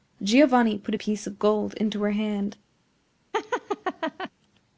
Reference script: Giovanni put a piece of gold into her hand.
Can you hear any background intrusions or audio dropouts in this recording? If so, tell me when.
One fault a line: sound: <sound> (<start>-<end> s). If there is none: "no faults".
sound: laugh (3.3-4.3 s)